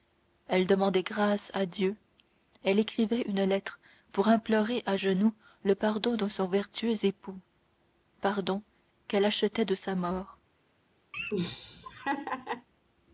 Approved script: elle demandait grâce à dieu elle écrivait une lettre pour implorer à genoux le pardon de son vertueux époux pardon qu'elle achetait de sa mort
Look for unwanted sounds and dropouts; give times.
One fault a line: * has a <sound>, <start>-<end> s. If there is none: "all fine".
* has a laugh, 11.1-12.7 s